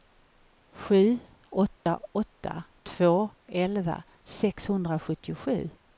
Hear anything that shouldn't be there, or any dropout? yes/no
yes